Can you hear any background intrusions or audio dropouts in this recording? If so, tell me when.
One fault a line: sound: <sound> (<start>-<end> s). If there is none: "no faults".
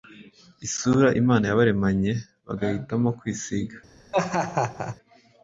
sound: laugh (4.1-5.0 s)